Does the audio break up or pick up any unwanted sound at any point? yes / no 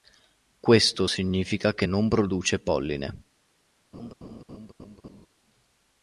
yes